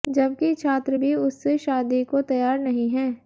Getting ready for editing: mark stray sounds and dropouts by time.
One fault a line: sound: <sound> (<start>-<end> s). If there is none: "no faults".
no faults